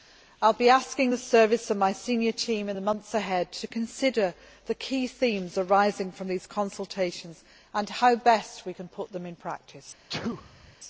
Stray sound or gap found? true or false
true